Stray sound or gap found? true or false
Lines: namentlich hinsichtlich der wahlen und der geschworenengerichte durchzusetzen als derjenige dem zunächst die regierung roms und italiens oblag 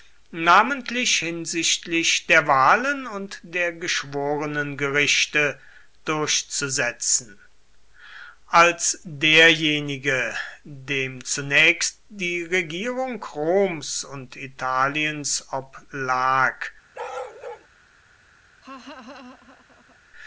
true